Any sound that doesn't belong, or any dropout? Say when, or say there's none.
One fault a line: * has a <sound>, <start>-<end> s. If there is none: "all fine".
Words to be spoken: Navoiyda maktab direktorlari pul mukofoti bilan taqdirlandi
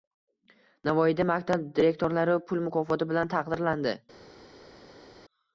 all fine